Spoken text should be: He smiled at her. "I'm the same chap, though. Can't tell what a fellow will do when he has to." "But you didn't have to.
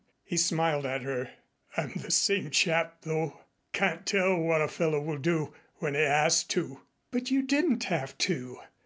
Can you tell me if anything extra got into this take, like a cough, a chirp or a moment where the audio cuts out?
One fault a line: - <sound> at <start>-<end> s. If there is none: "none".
none